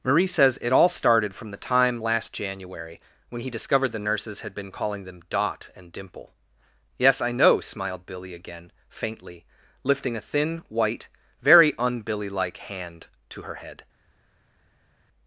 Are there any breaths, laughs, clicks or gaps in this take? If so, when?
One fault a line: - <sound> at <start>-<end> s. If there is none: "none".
none